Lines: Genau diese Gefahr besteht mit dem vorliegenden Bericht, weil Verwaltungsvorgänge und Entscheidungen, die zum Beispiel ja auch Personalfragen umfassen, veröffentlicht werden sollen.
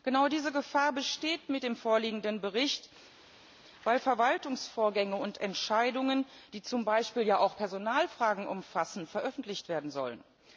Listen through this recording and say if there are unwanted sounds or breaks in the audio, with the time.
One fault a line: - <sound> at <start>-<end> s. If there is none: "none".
none